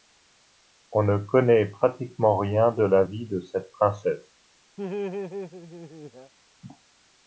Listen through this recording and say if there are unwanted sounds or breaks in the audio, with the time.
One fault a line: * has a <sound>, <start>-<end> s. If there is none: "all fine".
* has a laugh, 4.8-6.3 s